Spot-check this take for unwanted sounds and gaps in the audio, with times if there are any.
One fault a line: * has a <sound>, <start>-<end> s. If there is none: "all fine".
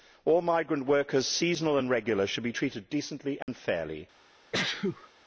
* has a dropout, 3.4-3.5 s
* has a sneeze, 4.5-5.1 s